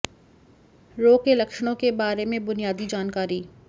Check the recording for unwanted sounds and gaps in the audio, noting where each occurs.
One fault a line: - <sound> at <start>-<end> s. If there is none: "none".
none